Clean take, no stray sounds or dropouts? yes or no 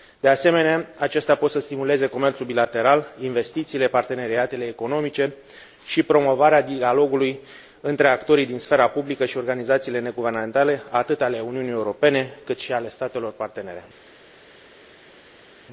yes